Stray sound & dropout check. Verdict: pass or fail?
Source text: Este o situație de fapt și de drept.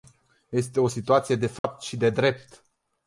fail